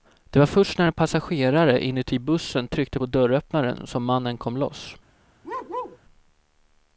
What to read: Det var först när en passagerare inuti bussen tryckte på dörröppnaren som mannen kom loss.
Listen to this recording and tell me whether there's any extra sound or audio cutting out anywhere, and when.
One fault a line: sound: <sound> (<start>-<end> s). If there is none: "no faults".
sound: bark (5.4-6.0 s)